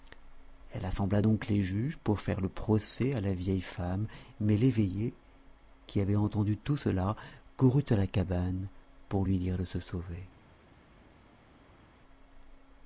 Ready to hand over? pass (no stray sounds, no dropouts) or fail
pass